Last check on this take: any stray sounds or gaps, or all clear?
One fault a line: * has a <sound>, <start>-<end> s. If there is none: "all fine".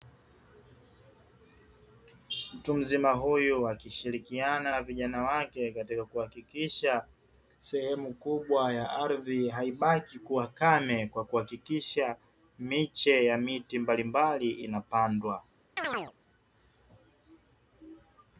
* has a chirp, 15.8-16.1 s